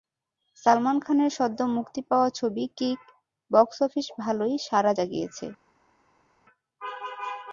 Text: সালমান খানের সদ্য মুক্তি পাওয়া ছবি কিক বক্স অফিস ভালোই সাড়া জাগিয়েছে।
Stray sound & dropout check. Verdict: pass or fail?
pass